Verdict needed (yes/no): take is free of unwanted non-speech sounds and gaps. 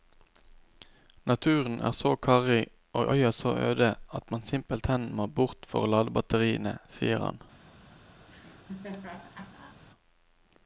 no